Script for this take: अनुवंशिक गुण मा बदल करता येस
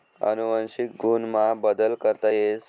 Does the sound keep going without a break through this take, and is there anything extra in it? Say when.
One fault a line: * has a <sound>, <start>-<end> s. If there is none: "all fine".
all fine